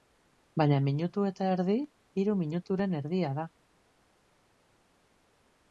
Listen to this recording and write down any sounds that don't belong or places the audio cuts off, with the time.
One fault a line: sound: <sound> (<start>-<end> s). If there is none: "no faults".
no faults